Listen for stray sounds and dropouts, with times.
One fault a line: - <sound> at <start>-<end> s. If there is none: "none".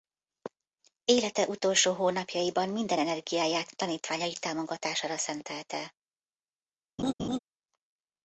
- laugh at 7.0-7.4 s